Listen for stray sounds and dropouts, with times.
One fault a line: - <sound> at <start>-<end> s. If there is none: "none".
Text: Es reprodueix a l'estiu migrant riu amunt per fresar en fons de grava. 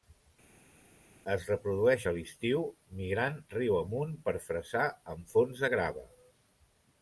none